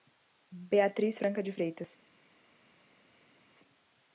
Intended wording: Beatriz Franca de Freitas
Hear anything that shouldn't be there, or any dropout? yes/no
no